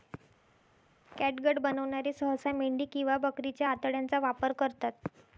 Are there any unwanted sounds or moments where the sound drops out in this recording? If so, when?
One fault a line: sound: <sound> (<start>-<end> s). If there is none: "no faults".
no faults